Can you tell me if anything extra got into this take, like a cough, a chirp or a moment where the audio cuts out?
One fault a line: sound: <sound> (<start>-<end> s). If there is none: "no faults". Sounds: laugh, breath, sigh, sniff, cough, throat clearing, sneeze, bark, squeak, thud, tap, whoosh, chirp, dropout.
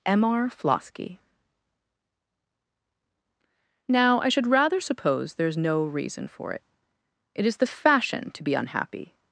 no faults